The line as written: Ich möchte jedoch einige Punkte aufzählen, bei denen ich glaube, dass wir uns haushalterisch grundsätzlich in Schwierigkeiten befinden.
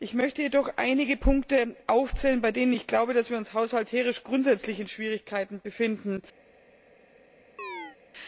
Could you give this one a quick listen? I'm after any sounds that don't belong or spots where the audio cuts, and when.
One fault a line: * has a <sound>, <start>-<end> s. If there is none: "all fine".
* has a chirp, 7.6-8.0 s